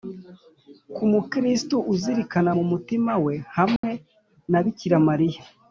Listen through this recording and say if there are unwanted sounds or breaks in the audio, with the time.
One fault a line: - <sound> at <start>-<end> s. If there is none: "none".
- dropout at 3.8-3.8 s